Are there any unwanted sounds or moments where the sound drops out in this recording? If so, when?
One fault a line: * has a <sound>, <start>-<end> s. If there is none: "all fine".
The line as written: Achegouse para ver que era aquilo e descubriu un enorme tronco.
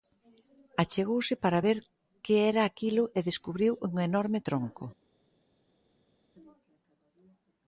all fine